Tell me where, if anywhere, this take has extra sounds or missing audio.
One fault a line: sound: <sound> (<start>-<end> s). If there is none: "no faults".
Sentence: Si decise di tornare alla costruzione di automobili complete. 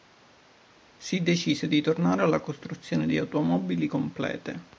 no faults